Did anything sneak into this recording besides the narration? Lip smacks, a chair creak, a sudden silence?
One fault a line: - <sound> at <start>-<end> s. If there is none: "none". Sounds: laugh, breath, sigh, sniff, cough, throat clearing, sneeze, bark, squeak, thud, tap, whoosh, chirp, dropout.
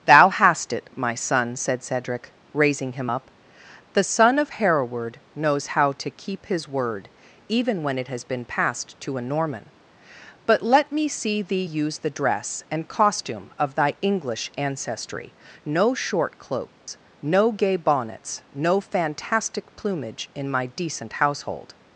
- dropout at 16.7-16.9 s